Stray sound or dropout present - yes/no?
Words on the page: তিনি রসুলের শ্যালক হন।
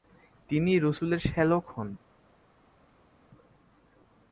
no